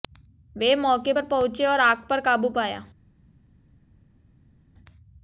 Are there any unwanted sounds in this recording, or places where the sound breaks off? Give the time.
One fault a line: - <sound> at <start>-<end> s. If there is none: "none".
none